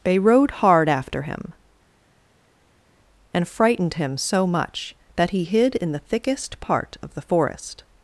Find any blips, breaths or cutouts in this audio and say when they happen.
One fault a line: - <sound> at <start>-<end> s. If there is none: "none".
none